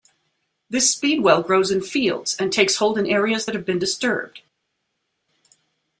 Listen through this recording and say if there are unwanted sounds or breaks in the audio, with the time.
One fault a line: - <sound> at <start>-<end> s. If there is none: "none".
none